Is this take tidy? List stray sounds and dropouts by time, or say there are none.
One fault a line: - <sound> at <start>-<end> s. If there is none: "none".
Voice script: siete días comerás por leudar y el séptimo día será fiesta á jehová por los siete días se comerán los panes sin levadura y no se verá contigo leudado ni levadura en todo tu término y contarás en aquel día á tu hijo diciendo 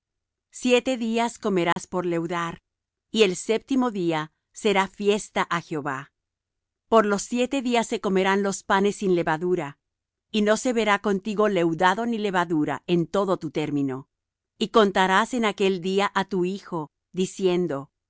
- dropout at 1.7-1.8 s